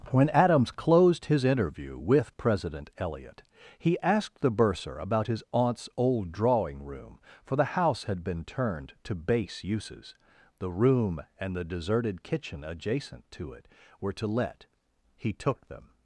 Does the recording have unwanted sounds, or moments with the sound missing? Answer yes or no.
no